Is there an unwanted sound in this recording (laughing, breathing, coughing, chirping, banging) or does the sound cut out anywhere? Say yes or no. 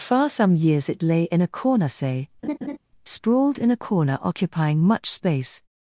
yes